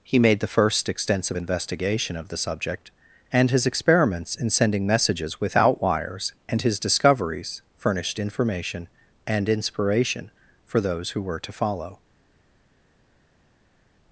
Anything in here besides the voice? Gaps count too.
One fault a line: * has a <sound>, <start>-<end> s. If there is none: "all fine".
all fine